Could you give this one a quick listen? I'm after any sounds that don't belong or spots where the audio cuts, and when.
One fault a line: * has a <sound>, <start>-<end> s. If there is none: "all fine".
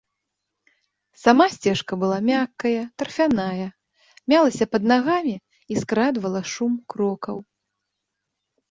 all fine